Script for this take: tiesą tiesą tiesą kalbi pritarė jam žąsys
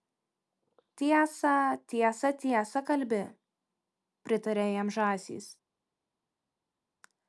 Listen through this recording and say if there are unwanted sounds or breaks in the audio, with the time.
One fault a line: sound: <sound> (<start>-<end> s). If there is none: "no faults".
no faults